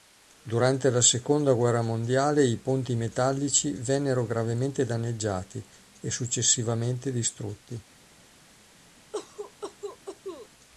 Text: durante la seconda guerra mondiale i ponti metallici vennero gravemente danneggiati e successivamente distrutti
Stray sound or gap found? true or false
true